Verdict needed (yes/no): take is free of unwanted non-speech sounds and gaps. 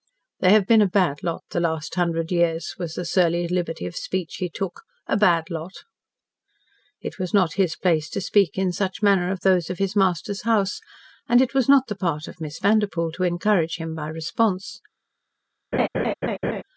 no